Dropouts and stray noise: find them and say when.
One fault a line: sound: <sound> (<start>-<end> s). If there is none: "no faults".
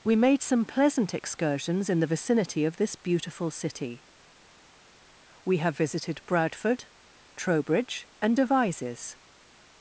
no faults